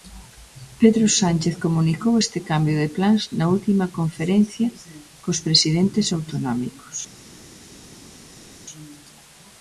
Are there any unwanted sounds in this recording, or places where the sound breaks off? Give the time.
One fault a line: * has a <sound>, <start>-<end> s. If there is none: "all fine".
all fine